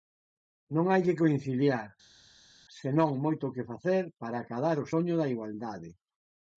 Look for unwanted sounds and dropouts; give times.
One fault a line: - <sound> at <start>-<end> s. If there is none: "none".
none